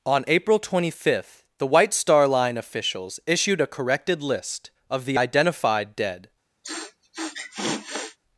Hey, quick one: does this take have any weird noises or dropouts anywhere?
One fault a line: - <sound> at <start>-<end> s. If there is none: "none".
- sniff at 6.6-8.2 s